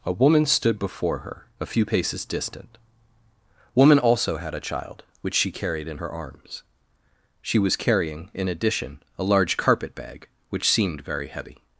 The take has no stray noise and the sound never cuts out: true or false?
true